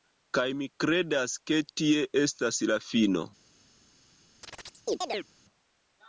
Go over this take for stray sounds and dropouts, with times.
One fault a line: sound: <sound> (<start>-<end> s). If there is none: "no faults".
sound: chirp (4.4-5.3 s)